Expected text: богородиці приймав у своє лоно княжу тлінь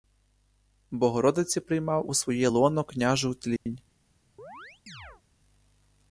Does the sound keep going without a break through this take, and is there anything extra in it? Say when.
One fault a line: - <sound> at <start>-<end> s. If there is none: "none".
- dropout at 3.6-3.7 s
- chirp at 4.4-5.2 s